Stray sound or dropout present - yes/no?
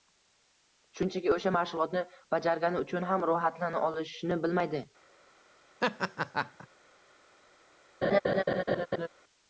yes